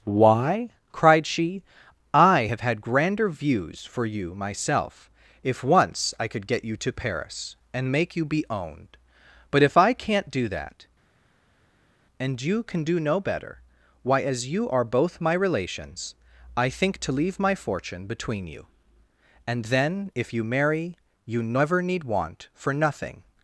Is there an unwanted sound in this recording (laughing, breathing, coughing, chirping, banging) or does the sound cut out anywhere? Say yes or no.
no